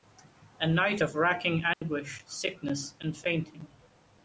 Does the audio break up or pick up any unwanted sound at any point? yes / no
yes